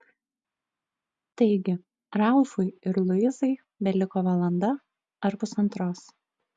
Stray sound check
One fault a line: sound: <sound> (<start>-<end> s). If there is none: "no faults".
no faults